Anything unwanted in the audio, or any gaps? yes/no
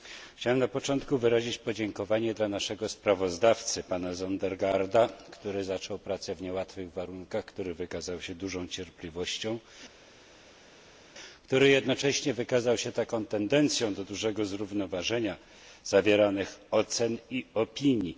no